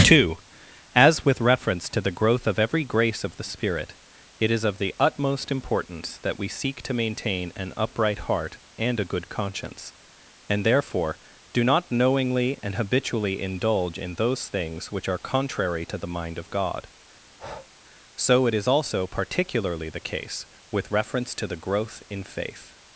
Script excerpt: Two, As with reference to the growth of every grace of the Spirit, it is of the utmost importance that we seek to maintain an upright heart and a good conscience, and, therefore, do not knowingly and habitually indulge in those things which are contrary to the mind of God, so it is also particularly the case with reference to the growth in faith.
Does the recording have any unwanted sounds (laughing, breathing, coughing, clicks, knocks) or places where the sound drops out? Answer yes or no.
yes